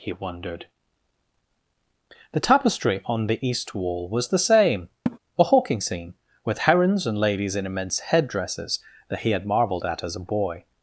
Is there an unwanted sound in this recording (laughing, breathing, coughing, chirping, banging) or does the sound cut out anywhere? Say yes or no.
yes